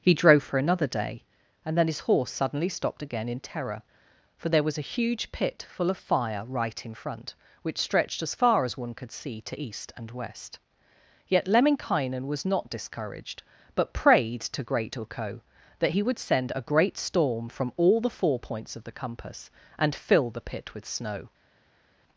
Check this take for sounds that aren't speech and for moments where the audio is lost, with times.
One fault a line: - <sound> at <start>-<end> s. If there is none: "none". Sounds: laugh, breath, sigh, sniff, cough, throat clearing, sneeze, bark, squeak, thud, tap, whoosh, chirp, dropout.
none